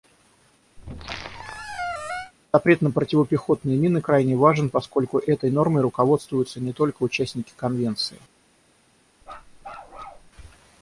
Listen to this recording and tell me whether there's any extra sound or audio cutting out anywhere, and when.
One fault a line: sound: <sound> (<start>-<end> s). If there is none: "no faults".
sound: squeak (0.8-2.3 s)
sound: bark (9.2-10.3 s)